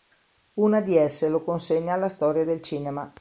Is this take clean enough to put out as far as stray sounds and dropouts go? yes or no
yes